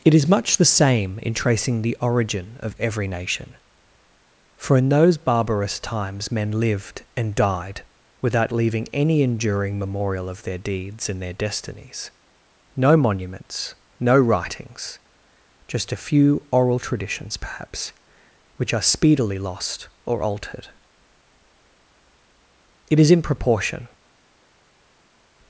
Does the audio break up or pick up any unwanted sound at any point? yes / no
no